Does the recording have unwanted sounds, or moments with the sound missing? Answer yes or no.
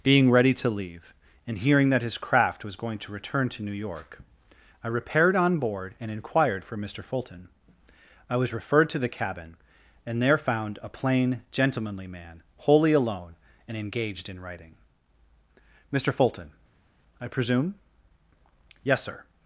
no